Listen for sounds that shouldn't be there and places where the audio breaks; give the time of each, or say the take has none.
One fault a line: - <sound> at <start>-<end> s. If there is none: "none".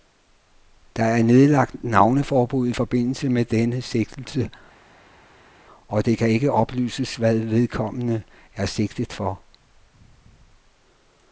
none